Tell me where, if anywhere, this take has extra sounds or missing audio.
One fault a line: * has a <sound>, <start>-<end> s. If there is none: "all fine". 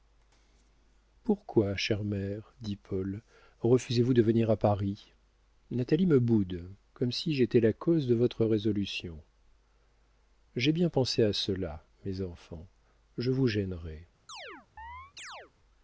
* has a chirp, 14.3-15.5 s